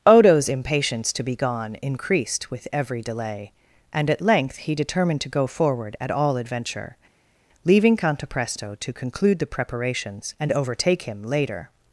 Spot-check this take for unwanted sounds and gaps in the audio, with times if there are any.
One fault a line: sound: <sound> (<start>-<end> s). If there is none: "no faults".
no faults